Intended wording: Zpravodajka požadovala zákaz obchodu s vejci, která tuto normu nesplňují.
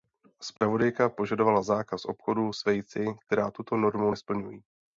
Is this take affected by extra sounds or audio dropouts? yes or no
yes